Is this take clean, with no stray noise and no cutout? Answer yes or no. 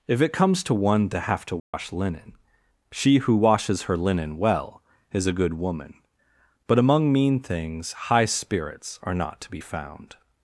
no